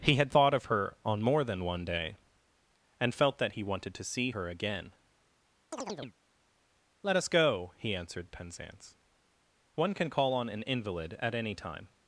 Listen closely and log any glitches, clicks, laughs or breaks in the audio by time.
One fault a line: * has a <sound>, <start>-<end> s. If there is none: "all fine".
* has a chirp, 5.7-6.2 s